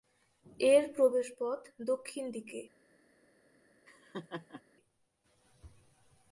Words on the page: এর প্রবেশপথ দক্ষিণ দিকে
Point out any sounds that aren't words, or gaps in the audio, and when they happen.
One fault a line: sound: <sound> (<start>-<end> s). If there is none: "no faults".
sound: laugh (3.9-4.6 s)